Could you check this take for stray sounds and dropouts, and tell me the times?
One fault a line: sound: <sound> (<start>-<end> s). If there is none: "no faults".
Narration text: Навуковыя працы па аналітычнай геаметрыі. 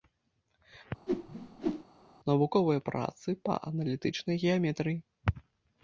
sound: whoosh (1.1-1.8 s)